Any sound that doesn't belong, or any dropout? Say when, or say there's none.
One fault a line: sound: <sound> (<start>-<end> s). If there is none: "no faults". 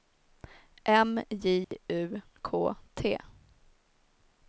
sound: dropout (1.6-1.7 s)